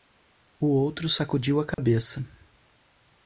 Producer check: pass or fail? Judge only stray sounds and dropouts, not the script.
fail